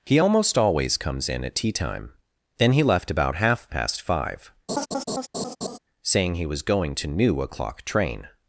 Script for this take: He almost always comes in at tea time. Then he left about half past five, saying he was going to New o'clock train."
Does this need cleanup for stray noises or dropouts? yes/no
yes